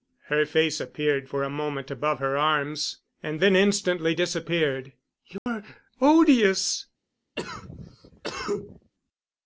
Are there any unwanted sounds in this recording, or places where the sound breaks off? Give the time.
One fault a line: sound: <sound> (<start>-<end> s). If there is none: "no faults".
sound: dropout (5.4-5.5 s)
sound: cough (7.4-8.9 s)